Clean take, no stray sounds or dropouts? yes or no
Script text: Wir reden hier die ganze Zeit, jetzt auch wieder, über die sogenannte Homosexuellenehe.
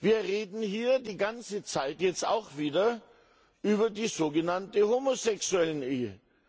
yes